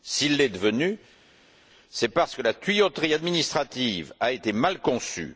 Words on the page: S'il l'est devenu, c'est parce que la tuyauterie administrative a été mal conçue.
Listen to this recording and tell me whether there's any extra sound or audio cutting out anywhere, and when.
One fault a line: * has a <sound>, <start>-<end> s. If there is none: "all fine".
all fine